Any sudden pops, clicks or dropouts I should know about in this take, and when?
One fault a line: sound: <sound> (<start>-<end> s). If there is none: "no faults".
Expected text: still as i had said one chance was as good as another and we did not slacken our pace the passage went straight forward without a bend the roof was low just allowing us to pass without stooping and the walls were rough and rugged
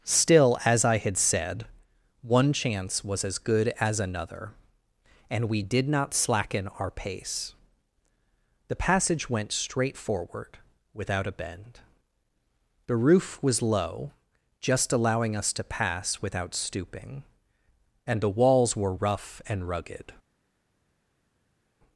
no faults